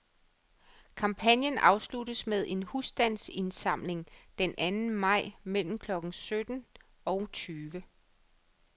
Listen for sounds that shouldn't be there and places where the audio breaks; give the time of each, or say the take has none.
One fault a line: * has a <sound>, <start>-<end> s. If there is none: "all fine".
all fine